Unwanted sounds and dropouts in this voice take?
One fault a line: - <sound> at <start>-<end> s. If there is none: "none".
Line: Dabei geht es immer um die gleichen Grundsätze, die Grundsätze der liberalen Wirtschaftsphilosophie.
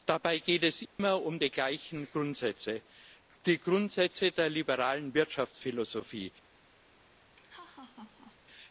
- dropout at 0.9-1.0 s
- laugh at 7.4-8.4 s